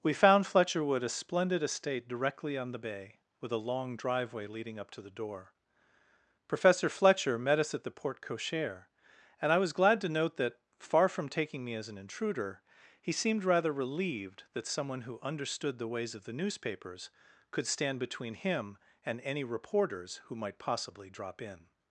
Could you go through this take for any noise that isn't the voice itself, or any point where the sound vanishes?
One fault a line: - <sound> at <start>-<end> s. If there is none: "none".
none